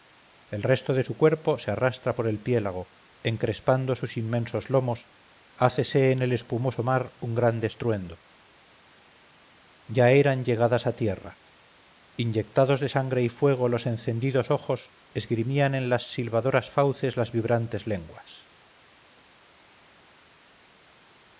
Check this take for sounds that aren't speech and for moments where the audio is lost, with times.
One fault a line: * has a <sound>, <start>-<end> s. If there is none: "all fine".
all fine